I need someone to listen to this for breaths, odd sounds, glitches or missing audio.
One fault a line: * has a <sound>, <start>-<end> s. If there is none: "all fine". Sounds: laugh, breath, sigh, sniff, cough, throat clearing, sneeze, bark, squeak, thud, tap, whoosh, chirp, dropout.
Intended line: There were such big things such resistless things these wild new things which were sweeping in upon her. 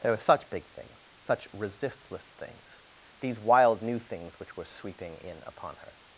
all fine